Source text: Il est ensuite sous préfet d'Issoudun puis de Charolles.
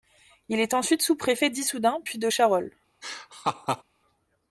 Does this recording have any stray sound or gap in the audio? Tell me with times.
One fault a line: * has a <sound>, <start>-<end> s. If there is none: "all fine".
* has a laugh, 3.0-3.8 s